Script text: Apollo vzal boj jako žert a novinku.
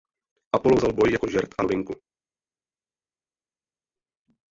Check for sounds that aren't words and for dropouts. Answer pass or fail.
pass